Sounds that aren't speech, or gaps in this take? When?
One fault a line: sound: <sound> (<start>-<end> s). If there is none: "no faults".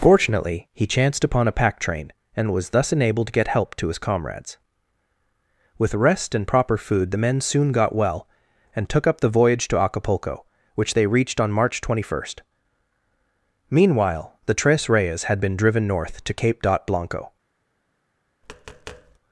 sound: tap (18.4-19.2 s)